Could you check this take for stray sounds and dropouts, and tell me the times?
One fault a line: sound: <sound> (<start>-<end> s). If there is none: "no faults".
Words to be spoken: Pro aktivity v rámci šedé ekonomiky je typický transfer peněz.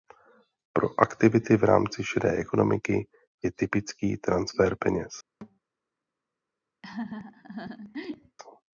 sound: thud (5.4-5.6 s)
sound: laugh (6.8-8.4 s)